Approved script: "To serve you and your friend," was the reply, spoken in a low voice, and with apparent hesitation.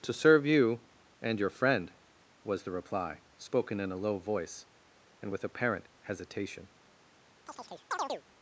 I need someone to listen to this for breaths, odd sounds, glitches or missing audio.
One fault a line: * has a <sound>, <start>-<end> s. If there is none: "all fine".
* has a chirp, 7.5-8.2 s